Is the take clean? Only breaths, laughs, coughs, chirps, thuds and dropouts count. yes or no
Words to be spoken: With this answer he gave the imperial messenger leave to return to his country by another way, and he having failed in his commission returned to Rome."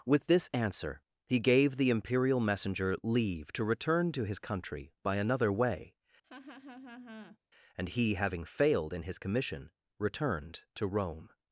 no